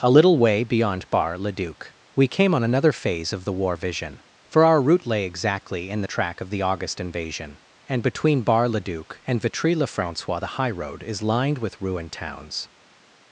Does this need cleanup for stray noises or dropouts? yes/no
no